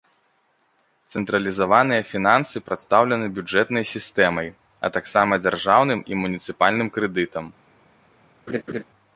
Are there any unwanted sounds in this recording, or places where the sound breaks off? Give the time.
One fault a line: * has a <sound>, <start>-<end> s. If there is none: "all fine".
* has a laugh, 8.5-8.8 s